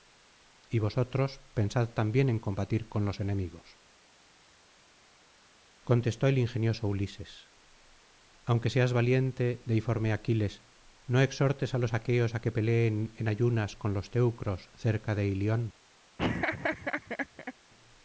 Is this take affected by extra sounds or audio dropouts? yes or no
yes